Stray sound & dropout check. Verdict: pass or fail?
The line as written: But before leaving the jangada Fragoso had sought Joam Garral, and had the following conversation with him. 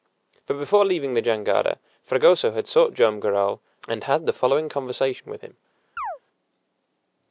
fail